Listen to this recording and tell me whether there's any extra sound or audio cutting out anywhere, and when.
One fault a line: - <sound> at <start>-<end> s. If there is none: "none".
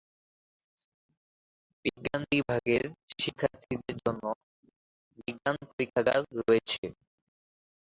none